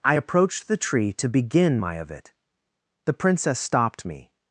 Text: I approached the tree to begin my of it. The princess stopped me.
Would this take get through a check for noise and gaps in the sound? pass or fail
pass